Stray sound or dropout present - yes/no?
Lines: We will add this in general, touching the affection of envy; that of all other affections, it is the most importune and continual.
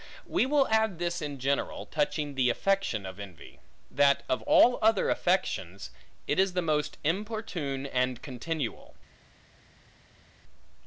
no